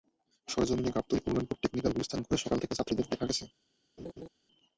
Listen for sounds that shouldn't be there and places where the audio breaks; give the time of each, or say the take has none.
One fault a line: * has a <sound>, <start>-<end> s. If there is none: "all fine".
* has a laugh, 4.0-4.3 s